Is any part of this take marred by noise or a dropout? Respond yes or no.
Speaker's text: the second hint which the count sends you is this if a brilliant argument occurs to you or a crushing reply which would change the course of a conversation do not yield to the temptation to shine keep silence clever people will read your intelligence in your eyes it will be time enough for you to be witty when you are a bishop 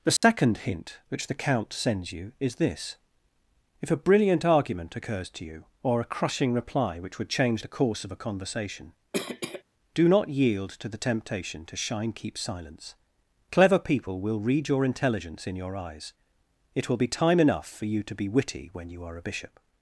yes